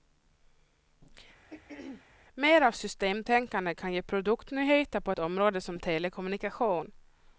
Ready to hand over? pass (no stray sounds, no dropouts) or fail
fail